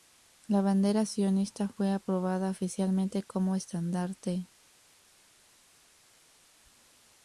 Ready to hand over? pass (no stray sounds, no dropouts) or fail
pass